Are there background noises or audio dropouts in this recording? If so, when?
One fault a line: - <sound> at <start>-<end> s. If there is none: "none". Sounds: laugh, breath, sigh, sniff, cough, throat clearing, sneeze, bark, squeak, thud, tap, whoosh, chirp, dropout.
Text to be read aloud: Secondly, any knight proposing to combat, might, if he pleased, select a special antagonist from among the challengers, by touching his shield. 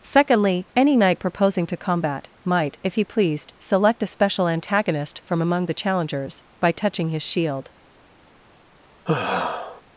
- sigh at 9.1-9.8 s